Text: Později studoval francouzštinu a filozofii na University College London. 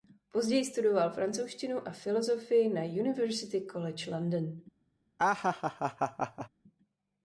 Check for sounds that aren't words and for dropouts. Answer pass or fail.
fail